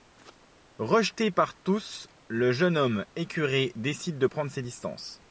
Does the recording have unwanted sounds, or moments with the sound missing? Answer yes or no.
no